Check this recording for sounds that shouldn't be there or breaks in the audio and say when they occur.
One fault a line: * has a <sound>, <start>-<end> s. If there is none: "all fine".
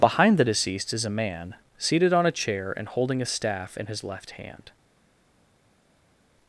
all fine